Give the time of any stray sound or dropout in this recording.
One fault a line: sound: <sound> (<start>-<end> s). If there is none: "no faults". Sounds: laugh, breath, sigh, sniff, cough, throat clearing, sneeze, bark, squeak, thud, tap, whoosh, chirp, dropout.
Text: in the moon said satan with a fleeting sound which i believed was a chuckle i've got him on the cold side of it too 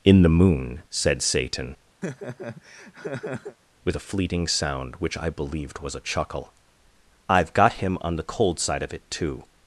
sound: laugh (2.0-3.6 s)